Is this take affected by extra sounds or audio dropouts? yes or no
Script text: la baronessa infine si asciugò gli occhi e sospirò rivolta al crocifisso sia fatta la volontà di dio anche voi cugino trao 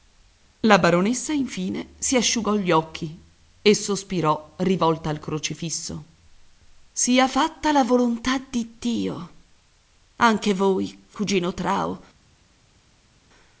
no